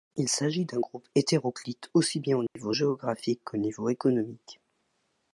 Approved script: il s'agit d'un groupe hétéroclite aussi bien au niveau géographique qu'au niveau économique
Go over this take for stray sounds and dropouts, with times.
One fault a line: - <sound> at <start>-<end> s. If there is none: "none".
- dropout at 2.5-2.6 s